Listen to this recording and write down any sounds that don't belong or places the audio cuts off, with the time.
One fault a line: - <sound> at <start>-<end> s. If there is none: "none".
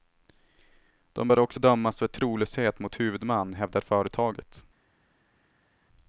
none